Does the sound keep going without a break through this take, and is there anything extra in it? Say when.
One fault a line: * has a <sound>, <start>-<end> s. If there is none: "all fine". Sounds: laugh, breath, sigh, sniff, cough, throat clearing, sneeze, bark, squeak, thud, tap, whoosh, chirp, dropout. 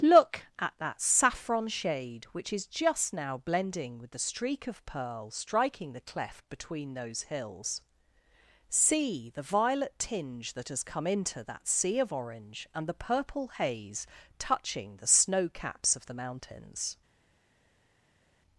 all fine